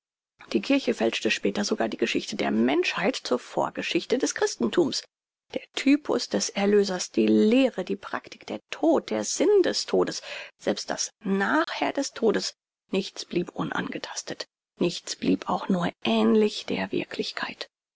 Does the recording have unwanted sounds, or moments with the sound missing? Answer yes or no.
yes